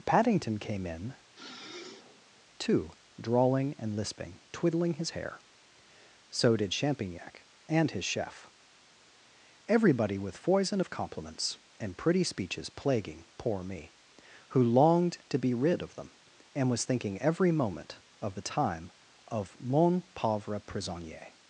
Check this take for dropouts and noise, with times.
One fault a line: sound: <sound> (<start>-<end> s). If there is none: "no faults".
sound: sniff (1.3-2.4 s)